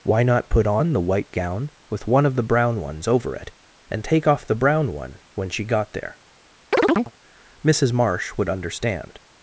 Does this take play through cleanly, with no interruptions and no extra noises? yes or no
no